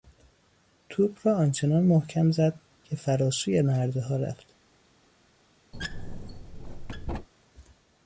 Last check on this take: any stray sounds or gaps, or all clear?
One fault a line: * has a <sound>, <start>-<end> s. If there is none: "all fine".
* has a squeak, 5.7-7.3 s